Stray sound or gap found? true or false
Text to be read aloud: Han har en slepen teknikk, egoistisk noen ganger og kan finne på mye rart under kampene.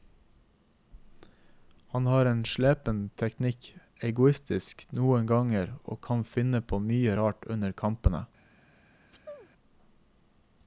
true